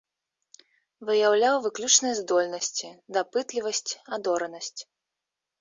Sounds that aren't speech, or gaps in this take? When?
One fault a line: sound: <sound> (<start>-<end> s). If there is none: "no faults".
no faults